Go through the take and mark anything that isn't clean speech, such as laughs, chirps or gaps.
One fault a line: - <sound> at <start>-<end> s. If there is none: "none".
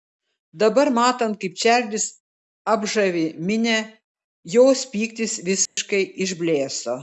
- dropout at 5.7-5.8 s